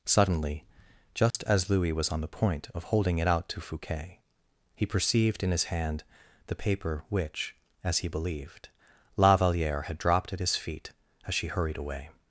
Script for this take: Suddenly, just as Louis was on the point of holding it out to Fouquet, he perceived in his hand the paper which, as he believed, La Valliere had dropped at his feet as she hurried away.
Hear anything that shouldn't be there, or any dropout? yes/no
yes